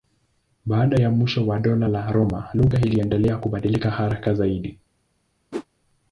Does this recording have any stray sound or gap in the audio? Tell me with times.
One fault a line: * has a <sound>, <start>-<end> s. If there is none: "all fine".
* has a whoosh, 5.5-5.7 s